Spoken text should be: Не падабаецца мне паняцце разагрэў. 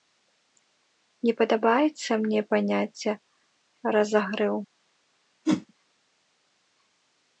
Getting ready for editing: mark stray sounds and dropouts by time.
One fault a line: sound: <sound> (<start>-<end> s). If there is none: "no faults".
sound: whoosh (5.4-5.7 s)